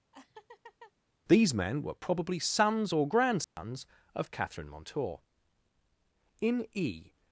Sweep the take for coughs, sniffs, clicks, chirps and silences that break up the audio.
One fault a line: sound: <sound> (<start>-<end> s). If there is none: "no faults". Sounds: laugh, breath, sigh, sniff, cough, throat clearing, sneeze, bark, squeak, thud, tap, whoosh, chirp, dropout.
sound: laugh (0.1-0.9 s)
sound: dropout (3.4-3.6 s)